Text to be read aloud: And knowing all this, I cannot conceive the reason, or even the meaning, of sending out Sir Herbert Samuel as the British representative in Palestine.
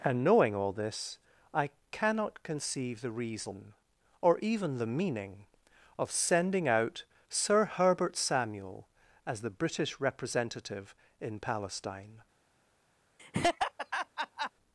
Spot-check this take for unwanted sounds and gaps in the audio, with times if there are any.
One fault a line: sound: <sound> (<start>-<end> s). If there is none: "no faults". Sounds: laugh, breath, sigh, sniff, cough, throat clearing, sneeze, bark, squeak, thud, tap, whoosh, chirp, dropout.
sound: laugh (13.2-14.5 s)